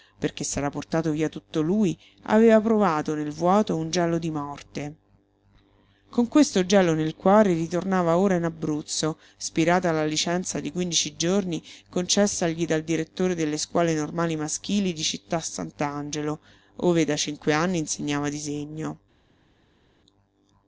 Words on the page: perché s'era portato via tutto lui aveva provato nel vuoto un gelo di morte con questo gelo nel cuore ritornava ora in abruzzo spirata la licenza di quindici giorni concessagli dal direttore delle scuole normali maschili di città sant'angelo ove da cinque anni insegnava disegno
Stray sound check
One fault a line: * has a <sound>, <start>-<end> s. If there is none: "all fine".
all fine